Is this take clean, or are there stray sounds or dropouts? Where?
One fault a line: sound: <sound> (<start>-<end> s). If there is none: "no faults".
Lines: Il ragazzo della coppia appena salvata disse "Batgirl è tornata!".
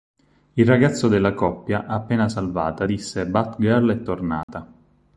sound: dropout (4.4-4.5 s)